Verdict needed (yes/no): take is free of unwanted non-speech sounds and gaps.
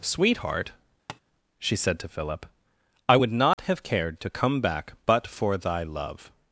no